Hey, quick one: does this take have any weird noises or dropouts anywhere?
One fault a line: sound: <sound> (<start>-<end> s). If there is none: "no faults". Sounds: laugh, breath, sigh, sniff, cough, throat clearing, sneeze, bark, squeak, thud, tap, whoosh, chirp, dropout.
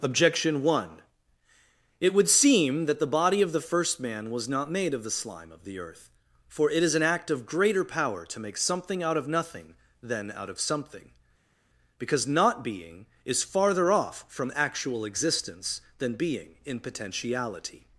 no faults